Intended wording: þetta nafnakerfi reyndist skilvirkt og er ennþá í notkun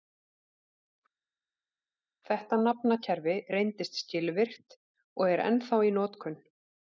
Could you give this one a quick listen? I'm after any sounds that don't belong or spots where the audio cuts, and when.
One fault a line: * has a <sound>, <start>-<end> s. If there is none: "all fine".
all fine